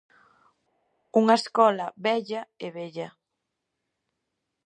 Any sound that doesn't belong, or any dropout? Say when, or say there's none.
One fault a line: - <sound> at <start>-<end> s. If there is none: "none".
none